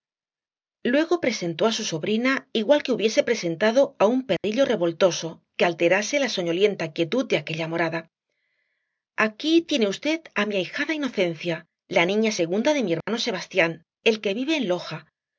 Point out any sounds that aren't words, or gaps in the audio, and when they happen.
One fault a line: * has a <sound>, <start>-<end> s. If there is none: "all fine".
* has a dropout, 4.4-4.4 s
* has a dropout, 13.0-13.1 s